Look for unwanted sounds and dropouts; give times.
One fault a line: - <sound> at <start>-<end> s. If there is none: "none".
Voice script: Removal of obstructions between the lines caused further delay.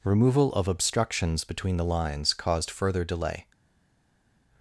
none